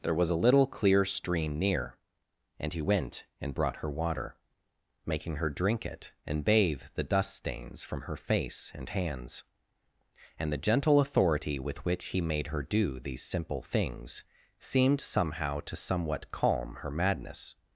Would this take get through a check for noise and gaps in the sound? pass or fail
pass